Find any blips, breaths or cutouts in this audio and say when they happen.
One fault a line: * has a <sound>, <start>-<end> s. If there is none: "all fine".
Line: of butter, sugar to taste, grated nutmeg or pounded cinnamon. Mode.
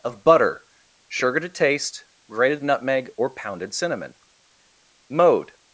all fine